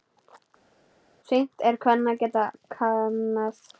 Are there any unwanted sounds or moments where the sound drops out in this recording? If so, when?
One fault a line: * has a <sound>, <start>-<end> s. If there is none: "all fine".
all fine